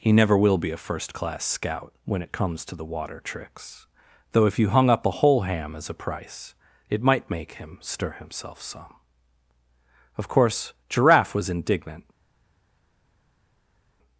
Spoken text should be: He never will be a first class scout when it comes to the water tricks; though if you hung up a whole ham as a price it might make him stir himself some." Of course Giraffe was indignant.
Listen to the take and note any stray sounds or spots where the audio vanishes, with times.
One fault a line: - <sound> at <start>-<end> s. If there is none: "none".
none